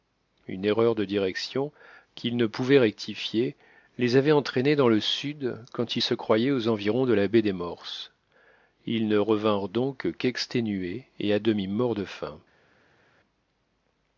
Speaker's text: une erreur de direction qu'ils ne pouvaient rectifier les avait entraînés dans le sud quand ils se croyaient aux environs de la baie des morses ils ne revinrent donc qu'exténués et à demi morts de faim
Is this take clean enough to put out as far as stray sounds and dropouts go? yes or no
yes